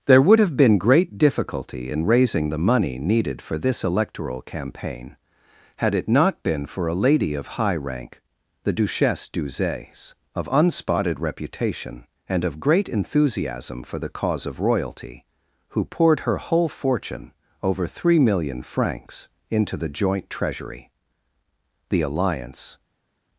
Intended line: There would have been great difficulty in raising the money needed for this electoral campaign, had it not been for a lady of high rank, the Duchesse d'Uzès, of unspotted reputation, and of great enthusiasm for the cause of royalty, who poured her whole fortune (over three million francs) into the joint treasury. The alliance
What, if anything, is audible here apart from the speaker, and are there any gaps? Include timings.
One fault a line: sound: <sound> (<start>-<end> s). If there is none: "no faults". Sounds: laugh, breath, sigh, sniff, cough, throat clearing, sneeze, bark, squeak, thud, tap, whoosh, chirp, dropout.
no faults